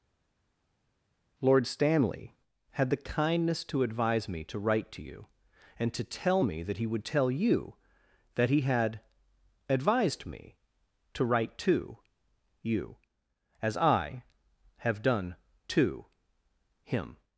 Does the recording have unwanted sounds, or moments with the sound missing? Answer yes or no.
no